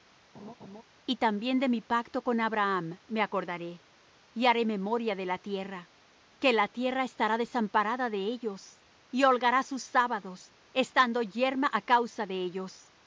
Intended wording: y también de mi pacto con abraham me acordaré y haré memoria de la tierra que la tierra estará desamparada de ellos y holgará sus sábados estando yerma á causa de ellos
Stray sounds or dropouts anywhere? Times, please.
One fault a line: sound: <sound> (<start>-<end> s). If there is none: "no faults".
sound: laugh (0.3-0.8 s)